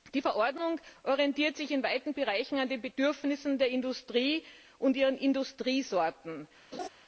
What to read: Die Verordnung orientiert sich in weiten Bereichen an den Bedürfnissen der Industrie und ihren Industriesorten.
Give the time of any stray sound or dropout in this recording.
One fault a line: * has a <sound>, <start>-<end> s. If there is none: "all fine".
* has a laugh, 6.7-6.9 s